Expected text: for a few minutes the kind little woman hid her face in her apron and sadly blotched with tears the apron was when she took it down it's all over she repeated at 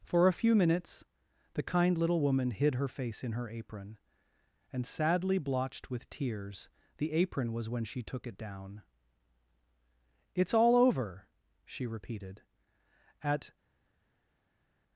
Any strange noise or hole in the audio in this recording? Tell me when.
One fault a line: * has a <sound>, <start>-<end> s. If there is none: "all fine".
all fine